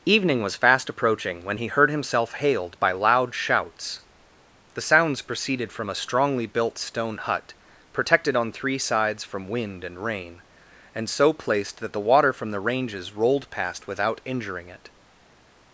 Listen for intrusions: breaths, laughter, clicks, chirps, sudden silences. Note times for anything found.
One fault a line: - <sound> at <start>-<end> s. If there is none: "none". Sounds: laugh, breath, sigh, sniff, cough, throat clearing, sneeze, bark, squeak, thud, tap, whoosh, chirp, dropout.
none